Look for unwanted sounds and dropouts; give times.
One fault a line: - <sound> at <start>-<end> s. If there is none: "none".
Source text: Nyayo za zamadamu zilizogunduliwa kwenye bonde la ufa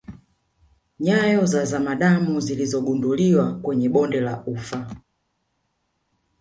none